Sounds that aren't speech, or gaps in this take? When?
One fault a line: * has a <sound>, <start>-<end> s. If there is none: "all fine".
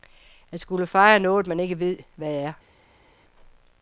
all fine